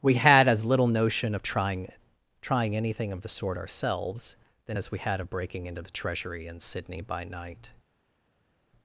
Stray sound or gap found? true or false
false